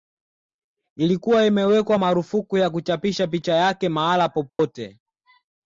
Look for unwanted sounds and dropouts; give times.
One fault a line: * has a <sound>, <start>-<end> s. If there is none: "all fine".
* has a dropout, 4.5-4.6 s